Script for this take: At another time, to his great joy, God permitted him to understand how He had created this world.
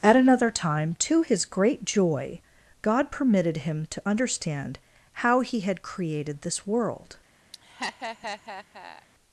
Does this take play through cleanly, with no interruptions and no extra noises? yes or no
no